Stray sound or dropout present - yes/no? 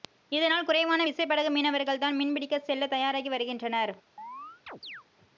yes